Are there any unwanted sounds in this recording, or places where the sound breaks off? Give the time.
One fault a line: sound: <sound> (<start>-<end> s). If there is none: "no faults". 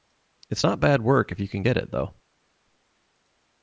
no faults